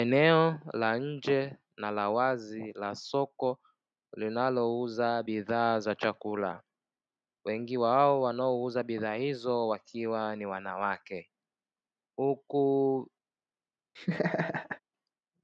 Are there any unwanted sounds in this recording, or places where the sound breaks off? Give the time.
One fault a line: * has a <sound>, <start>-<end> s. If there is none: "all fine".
* has a laugh, 14.0-14.8 s